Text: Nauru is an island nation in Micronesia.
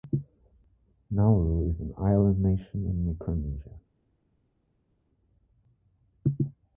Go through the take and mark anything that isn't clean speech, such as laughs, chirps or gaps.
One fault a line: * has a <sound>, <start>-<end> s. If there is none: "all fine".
all fine